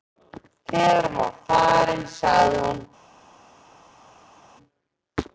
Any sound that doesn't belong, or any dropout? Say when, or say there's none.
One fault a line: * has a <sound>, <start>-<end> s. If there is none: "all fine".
all fine